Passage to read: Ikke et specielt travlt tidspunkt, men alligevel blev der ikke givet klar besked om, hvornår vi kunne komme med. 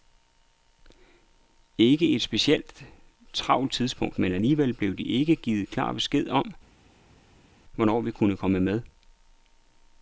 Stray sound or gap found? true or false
false